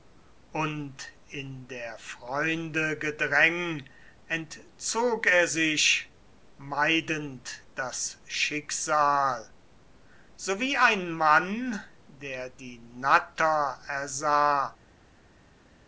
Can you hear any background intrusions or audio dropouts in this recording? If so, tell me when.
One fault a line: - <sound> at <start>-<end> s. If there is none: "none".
none